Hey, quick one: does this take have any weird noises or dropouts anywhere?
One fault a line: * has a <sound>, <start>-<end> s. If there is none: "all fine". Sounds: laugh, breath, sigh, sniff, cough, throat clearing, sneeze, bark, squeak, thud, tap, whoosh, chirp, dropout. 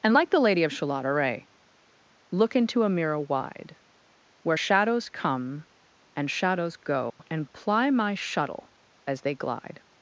* has a dropout, 7.1-7.2 s